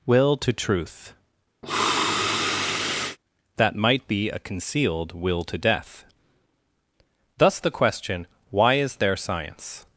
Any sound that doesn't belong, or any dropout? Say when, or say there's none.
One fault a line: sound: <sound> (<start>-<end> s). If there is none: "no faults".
sound: sniff (1.6-3.2 s)